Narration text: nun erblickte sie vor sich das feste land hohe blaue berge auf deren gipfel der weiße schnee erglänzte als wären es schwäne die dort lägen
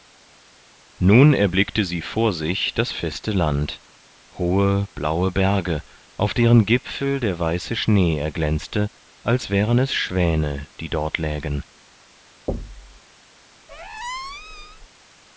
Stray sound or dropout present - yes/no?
yes